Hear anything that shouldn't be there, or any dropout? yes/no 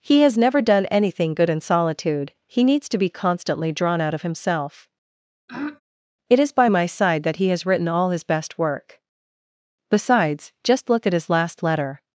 yes